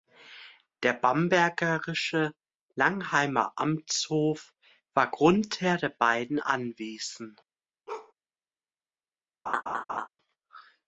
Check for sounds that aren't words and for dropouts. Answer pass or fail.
fail